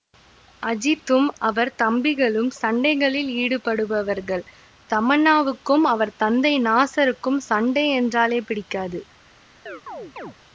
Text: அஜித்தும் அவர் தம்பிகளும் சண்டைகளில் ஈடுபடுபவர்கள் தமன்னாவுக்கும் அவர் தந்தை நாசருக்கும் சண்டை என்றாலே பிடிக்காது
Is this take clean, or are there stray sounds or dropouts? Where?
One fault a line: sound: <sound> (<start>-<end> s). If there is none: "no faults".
sound: chirp (9.7-10.4 s)